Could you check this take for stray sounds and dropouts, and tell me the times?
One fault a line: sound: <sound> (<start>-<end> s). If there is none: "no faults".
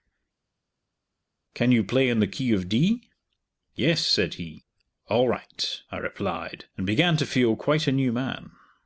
no faults